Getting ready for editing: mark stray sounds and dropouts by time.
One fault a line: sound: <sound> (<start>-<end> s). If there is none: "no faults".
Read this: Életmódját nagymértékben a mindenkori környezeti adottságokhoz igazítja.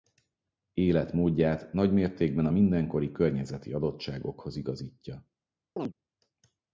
sound: chirp (5.8-5.9 s)